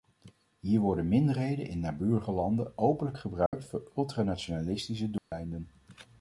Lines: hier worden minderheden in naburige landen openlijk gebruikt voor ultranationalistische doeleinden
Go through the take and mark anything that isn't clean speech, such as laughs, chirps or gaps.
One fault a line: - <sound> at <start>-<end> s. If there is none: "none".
- dropout at 3.5-3.5 s
- dropout at 5.2-5.3 s